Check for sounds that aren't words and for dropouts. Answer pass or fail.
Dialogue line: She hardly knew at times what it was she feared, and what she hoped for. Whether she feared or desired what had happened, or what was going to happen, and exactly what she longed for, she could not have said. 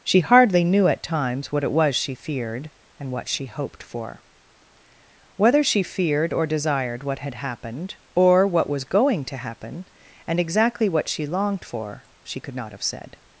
pass